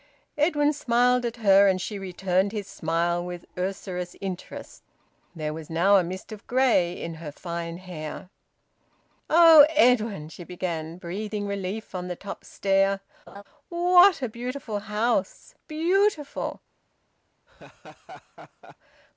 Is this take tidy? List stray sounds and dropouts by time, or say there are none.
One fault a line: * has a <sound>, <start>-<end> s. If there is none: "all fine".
* has a laugh, 13.3-13.4 s
* has a laugh, 17.5-18.8 s